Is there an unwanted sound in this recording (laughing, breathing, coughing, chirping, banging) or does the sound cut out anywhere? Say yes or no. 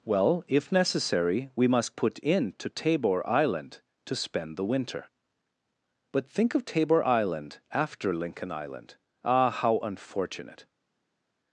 no